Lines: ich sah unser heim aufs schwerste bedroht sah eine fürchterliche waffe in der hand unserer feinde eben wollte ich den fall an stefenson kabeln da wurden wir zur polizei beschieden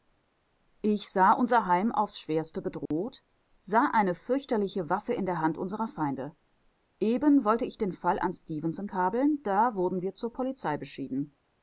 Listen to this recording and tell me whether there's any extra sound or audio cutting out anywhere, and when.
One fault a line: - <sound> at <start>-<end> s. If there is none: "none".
- dropout at 2.9-2.9 s